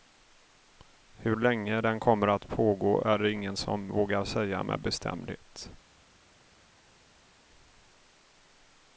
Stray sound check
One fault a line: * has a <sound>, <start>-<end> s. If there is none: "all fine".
all fine